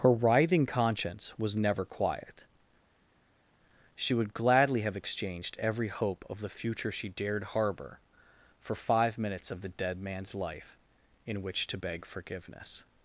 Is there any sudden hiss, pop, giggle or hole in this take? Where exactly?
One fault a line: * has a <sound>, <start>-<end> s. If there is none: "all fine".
all fine